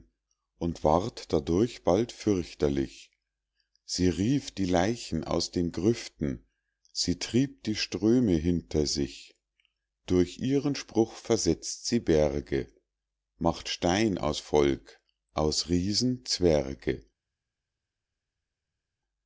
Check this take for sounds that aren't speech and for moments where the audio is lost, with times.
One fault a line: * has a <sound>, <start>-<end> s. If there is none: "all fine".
all fine